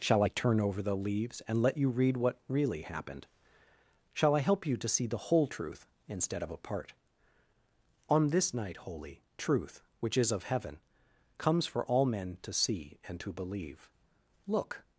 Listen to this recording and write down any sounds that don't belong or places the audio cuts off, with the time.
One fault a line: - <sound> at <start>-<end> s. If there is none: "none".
none